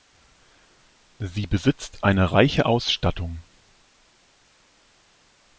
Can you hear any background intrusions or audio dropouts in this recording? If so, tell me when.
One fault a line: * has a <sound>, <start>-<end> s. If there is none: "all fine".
all fine